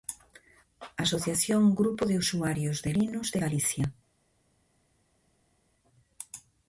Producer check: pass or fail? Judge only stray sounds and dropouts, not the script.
pass